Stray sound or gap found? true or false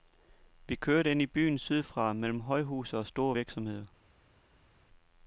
false